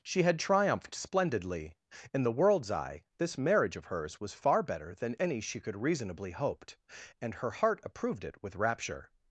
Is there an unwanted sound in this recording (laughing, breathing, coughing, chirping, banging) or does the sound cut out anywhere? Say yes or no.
no